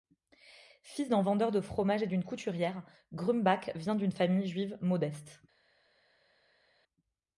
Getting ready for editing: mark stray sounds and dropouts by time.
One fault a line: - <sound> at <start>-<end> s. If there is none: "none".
none